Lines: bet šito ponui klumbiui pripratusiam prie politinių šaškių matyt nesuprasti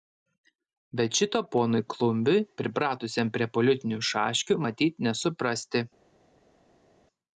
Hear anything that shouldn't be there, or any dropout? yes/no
no